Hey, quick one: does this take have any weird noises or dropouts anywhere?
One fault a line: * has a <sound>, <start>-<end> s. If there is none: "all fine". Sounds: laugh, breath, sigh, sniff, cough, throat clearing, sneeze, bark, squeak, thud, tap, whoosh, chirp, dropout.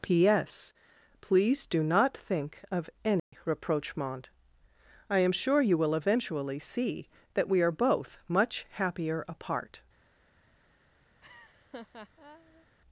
* has a dropout, 3.2-3.3 s
* has a laugh, 11.2-12.7 s